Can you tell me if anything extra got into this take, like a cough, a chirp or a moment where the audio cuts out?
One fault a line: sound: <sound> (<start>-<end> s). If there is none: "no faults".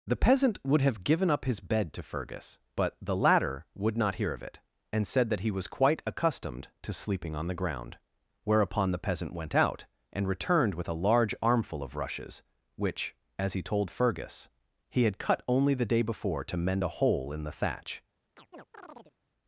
sound: chirp (18.4-19.1 s)